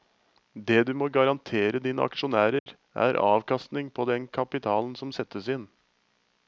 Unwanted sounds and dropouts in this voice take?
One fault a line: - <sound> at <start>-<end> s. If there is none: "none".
- dropout at 2.6-2.7 s